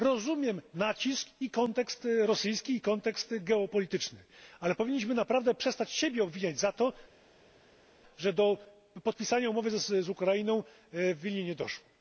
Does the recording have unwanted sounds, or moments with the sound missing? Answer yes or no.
no